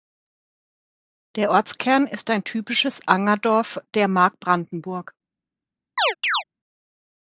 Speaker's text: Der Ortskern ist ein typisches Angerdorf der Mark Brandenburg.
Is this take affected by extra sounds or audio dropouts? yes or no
yes